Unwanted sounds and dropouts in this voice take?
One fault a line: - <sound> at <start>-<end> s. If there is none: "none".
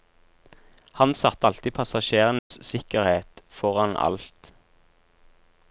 - dropout at 2.4-2.5 s